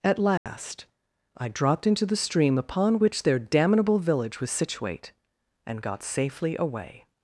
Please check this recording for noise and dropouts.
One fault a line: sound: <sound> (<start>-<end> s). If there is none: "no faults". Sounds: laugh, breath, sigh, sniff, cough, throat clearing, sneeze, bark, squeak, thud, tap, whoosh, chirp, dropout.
sound: dropout (0.4-0.5 s)